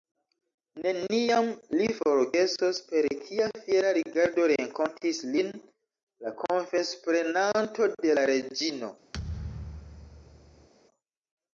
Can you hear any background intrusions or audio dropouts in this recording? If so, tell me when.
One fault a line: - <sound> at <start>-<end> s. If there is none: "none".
- thud at 9.1-10.7 s